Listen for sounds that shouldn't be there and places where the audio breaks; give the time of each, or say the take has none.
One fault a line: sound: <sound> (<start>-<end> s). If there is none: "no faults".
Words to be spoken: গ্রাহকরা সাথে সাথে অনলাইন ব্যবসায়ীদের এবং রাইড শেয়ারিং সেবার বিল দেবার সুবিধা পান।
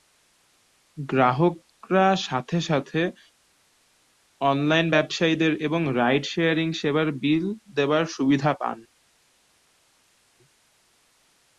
no faults